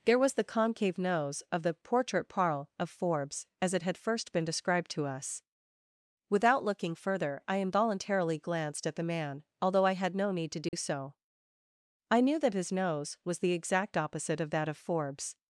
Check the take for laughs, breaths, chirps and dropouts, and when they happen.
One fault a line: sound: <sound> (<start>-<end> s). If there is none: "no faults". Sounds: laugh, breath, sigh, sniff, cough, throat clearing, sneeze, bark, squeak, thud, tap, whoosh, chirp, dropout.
sound: dropout (10.7-10.7 s)